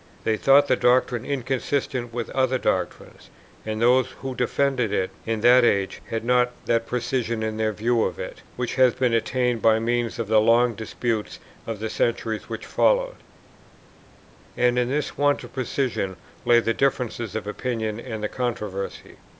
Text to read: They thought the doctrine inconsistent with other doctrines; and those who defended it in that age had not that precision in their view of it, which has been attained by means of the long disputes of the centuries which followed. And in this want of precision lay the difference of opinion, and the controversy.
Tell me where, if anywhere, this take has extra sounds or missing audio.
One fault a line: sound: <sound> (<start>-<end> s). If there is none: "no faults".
no faults